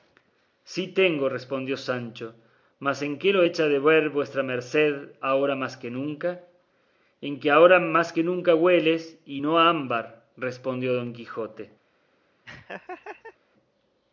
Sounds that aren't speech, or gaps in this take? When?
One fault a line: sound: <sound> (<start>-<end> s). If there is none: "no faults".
sound: laugh (12.4-13.4 s)